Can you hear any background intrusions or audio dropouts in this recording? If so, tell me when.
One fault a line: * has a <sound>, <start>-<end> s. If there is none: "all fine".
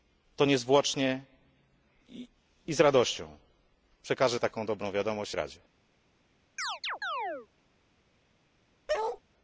* has a chirp, 6.6-7.5 s
* has a bark, 8.9-9.2 s